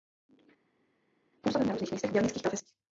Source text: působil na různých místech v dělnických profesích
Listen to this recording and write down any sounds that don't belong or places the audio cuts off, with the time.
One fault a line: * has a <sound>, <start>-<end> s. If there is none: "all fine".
all fine